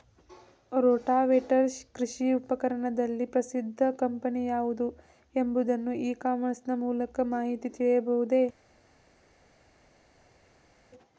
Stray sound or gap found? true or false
false